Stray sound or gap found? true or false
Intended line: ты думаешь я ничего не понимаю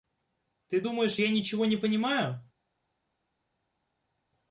false